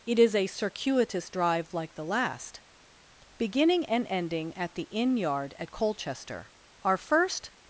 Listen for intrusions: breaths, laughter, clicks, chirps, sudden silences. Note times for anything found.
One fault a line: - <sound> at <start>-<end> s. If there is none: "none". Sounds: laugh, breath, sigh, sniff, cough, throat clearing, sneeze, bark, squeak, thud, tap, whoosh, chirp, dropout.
none